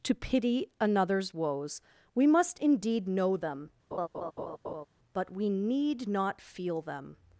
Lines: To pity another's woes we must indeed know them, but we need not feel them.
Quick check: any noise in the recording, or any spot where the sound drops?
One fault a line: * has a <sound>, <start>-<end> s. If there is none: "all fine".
* has a laugh, 3.9-4.9 s